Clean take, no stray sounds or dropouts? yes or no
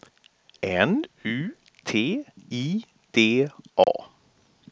no